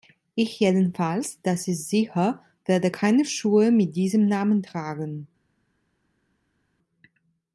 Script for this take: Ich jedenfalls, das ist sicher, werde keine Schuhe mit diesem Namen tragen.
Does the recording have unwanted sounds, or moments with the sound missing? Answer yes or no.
no